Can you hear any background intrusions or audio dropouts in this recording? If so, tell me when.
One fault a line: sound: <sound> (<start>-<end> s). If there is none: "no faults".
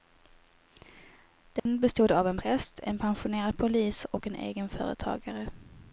sound: dropout (1.6-1.7 s)